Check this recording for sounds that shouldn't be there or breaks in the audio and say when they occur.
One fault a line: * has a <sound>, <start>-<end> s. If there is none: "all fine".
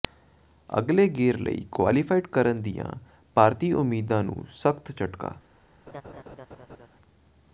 * has a laugh, 5.9-6.9 s